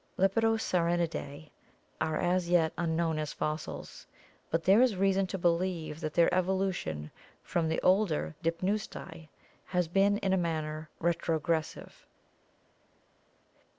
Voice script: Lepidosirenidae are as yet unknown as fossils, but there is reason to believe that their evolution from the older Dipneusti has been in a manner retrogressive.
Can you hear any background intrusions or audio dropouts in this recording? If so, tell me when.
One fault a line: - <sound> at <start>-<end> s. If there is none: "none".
none